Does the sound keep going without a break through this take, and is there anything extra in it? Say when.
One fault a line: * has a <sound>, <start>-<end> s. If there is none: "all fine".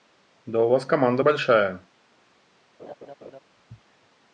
* has a laugh, 2.8-3.4 s